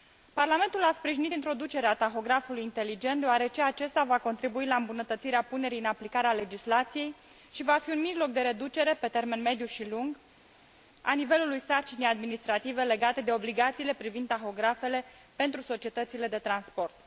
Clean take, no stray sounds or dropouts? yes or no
yes